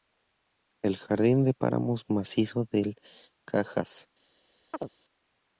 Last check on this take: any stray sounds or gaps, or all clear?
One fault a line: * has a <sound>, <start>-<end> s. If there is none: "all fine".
* has a chirp, 4.7-4.9 s